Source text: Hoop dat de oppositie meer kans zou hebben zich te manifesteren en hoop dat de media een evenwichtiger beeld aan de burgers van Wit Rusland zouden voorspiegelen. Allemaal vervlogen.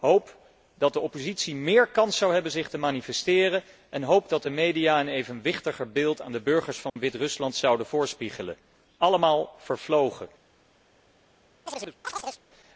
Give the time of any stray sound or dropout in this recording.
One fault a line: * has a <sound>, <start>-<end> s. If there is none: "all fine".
* has a dropout, 6.9-7.0 s
* has a chirp, 11.7-12.4 s